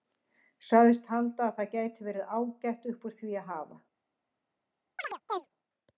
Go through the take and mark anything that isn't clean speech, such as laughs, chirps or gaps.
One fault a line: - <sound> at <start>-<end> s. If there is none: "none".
- chirp at 5.0-5.5 s